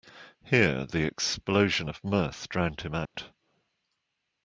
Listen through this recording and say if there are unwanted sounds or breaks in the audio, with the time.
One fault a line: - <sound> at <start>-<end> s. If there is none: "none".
- dropout at 3.0-3.2 s